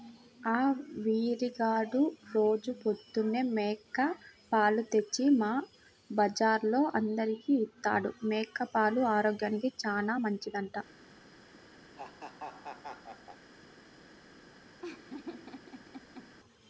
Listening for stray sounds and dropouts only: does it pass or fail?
fail